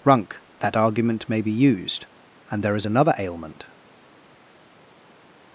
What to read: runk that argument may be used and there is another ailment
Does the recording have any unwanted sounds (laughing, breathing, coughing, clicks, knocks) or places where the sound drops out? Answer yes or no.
no